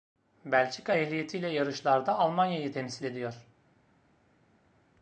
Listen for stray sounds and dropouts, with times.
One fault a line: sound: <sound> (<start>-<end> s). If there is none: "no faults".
no faults